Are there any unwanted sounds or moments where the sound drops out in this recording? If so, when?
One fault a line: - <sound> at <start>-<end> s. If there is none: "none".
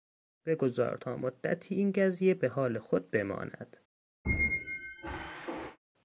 - squeak at 4.2-5.8 s